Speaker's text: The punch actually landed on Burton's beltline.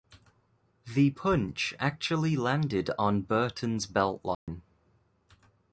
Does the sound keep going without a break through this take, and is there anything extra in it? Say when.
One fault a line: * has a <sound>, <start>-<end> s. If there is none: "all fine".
* has a dropout, 4.3-4.5 s